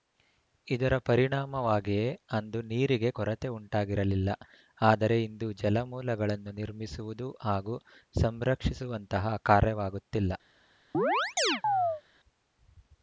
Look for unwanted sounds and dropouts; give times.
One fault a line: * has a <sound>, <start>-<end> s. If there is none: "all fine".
* has a chirp, 10.9-12.0 s